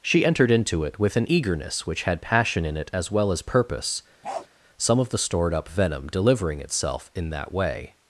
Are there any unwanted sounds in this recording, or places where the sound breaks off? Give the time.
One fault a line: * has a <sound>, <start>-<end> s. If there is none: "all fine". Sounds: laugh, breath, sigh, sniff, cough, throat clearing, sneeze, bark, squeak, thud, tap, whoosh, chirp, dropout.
* has a bark, 4.2-4.5 s